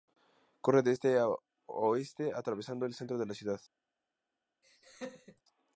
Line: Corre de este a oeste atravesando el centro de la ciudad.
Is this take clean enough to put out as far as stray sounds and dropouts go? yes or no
no